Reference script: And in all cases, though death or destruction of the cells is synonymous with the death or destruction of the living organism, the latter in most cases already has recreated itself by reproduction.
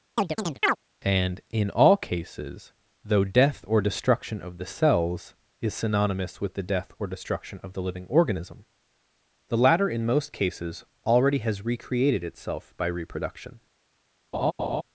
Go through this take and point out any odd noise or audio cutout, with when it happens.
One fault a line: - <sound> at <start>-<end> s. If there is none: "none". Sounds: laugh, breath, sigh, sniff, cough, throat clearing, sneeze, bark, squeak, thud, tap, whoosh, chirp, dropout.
- chirp at 0.2-0.8 s
- laugh at 14.3-14.8 s